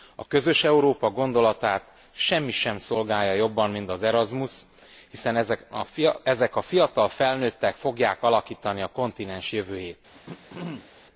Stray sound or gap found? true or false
true